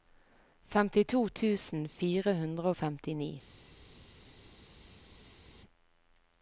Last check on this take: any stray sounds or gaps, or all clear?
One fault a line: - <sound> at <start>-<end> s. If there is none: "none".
none